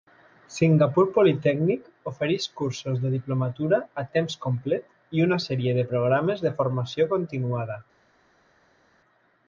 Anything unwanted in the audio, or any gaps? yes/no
no